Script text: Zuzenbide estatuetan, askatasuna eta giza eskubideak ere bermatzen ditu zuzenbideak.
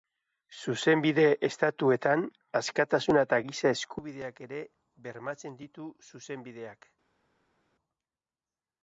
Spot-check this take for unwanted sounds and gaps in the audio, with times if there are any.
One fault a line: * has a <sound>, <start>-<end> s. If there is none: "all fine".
all fine